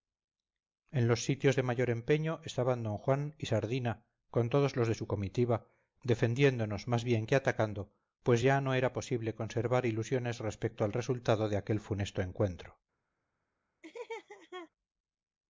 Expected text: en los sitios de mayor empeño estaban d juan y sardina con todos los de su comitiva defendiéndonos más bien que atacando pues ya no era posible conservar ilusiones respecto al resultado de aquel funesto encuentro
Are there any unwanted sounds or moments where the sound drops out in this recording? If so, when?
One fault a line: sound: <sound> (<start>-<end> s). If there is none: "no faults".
sound: laugh (13.8-14.7 s)